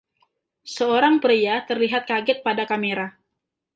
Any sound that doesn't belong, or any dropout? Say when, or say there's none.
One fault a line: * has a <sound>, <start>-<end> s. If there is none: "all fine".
all fine